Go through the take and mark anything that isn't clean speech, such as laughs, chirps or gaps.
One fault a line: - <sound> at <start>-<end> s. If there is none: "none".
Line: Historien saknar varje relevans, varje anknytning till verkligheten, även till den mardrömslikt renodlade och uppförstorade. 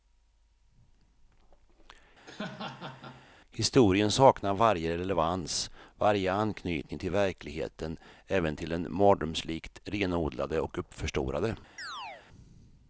- laugh at 2.3-3.3 s
- chirp at 11.8-12.3 s